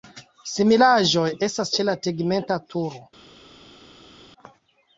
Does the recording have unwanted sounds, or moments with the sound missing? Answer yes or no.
no